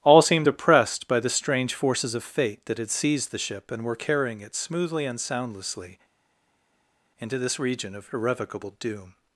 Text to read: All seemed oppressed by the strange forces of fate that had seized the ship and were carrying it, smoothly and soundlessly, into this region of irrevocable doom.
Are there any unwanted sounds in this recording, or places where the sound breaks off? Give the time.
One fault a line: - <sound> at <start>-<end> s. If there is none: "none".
none